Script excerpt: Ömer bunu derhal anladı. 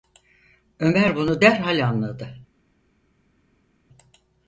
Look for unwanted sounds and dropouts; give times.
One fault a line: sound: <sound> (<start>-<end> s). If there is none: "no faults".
no faults